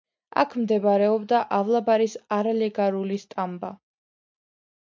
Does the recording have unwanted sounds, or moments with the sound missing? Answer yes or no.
no